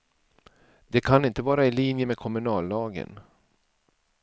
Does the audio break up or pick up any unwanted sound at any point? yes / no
no